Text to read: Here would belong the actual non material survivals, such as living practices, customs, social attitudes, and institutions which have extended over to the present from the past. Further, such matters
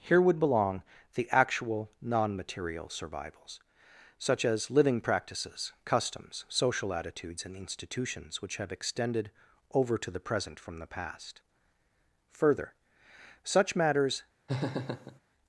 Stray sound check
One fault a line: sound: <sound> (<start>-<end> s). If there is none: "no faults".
sound: laugh (14.5-15.2 s)